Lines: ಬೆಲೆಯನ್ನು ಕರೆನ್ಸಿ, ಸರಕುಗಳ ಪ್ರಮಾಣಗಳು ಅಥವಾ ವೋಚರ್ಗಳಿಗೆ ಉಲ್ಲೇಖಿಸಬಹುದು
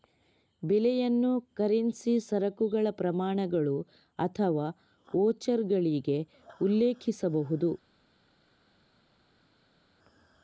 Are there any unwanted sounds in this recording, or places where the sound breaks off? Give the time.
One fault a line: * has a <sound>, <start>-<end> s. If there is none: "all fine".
all fine